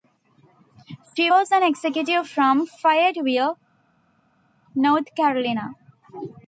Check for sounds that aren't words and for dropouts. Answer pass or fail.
pass